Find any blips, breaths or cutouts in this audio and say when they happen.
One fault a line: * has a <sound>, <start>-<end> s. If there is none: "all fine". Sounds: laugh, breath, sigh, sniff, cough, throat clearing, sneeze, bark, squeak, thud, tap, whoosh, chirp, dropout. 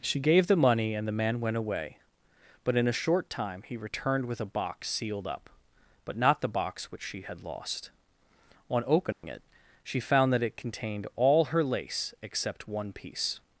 * has a dropout, 9.1-9.2 s